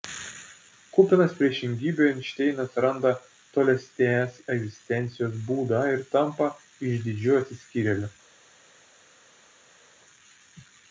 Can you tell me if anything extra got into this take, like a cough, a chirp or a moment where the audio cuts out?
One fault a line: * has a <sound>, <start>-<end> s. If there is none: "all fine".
all fine